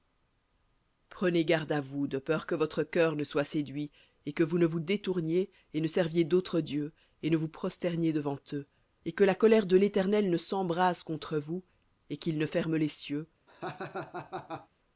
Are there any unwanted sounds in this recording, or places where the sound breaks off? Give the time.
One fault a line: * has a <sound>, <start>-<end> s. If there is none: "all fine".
* has a laugh, 13.5-14.7 s